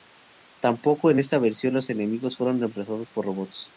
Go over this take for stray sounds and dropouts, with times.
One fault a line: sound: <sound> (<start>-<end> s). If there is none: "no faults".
no faults